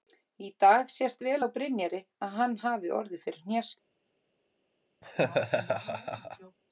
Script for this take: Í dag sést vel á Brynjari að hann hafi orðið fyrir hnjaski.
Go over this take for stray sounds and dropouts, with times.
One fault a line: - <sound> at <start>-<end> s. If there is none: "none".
- laugh at 5.0-6.6 s